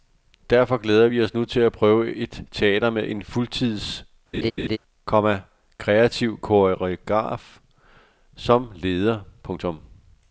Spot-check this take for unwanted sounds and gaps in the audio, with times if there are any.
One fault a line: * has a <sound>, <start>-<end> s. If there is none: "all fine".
* has a laugh, 4.3-4.8 s